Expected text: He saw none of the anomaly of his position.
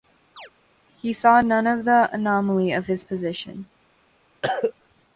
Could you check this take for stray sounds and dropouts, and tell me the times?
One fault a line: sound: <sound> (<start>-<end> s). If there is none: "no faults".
sound: chirp (0.4-0.5 s)
sound: cough (4.4-4.7 s)